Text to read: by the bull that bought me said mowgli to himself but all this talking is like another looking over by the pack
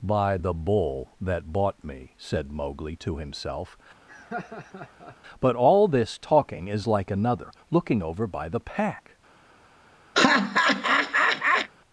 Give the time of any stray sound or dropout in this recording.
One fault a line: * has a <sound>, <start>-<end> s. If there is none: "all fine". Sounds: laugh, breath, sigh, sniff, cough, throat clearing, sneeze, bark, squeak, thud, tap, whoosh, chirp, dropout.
* has a laugh, 4.1-5.2 s
* has a laugh, 10.1-11.7 s